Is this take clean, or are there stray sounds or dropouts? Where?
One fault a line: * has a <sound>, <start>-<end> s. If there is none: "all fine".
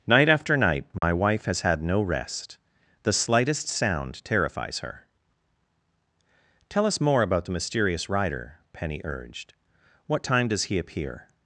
* has a dropout, 1.0-1.0 s